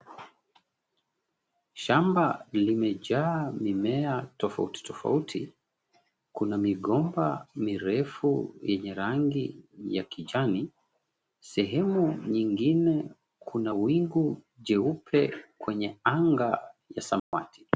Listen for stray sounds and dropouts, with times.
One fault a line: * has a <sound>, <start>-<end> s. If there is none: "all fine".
* has a dropout, 17.2-17.3 s